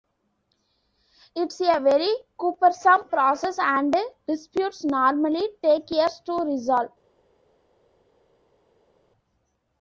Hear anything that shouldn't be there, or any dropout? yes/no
no